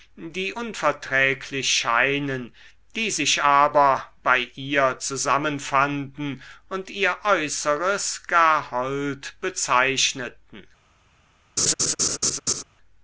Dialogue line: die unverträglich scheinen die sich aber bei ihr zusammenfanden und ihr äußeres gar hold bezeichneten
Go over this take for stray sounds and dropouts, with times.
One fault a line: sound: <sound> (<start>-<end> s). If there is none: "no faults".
sound: laugh (11.6-12.6 s)